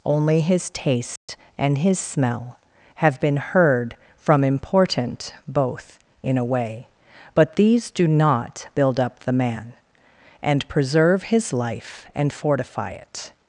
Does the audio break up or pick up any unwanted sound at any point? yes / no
yes